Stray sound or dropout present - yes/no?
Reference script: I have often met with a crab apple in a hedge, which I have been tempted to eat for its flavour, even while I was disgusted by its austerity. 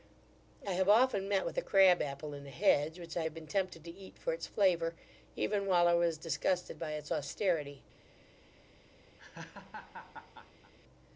yes